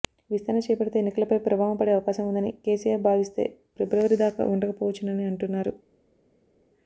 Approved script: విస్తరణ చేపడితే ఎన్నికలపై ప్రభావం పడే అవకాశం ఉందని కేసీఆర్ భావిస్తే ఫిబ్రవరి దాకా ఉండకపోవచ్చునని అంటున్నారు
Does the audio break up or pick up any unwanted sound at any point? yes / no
no